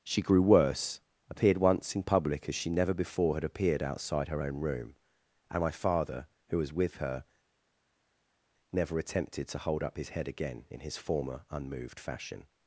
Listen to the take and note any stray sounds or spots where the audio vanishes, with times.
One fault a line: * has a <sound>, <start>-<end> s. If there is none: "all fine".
all fine